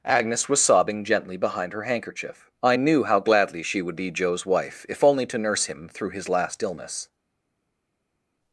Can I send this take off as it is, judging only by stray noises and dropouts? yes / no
yes